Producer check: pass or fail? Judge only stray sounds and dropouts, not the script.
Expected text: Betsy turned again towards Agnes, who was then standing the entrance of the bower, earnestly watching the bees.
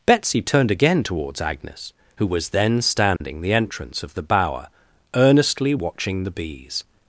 fail